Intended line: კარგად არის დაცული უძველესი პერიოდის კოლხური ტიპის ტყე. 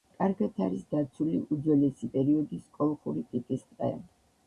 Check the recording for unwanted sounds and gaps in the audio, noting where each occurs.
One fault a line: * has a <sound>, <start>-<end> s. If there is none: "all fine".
all fine